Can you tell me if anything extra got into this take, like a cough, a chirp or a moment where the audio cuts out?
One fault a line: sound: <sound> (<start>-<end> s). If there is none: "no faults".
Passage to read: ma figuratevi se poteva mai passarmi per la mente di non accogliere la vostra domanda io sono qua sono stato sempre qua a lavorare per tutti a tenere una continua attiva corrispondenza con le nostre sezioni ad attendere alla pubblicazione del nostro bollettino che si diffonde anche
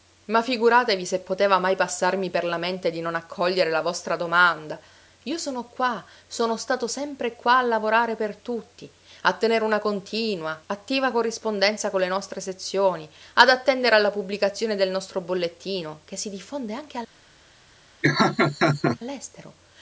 sound: laugh (18.0-19.0 s)